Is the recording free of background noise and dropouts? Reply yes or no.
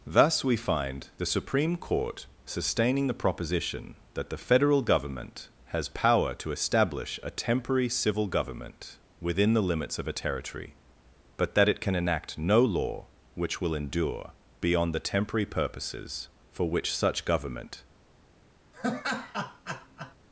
no